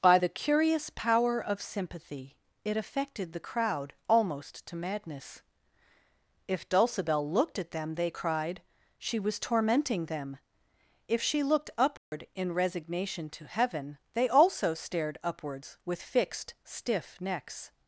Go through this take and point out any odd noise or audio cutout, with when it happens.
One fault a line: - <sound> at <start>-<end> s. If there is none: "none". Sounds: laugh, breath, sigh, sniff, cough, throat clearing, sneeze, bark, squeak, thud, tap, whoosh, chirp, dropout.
- dropout at 12.0-12.1 s